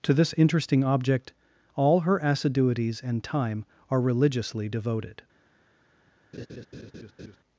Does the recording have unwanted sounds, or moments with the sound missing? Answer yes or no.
yes